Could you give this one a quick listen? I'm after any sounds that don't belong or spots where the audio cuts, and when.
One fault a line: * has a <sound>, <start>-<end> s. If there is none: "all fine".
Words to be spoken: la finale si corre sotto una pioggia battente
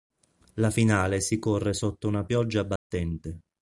* has a dropout, 2.8-2.9 s